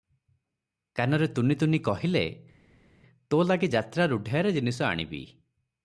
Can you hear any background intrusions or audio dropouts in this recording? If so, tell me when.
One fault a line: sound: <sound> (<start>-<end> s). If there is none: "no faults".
no faults